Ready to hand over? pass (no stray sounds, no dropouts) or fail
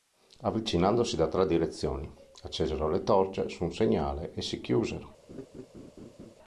fail